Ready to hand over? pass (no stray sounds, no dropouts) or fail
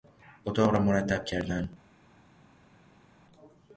pass